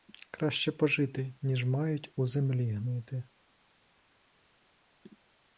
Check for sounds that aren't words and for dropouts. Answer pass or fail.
pass